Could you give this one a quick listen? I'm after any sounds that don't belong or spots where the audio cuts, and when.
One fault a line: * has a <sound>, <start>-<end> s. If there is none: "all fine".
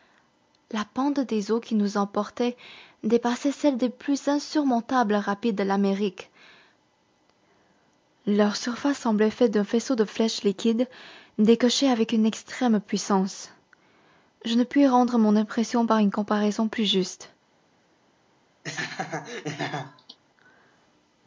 * has a laugh, 18.6-20.2 s